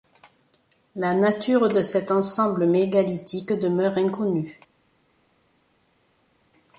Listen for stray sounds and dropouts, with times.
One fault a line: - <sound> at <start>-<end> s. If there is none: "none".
none